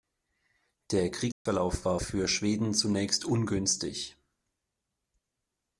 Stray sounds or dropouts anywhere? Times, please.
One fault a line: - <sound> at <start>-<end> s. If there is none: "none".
- dropout at 1.3-1.5 s